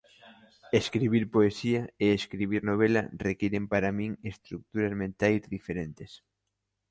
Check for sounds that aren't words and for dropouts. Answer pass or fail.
pass